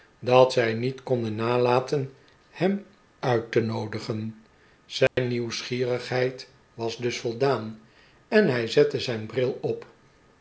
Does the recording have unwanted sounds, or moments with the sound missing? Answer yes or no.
yes